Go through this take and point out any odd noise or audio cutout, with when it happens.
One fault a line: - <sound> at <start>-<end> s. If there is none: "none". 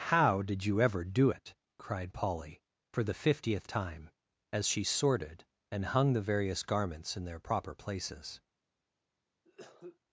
- cough at 9.4-10.0 s